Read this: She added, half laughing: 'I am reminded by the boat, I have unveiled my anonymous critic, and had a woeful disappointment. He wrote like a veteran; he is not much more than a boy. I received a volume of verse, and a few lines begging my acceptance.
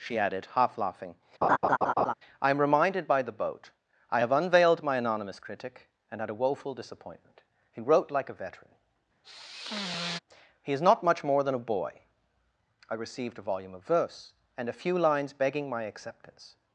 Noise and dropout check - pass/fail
fail